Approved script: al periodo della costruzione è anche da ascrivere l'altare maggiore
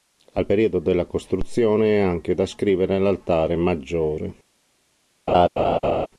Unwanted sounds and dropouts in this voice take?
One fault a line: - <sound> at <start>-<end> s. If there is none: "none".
- laugh at 5.3-6.1 s